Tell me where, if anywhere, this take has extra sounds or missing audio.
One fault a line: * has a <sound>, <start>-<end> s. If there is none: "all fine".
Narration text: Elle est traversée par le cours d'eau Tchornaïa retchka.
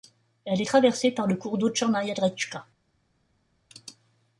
all fine